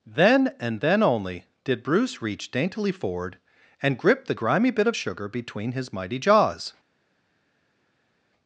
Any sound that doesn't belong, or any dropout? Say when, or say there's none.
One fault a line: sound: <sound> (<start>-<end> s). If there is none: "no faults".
no faults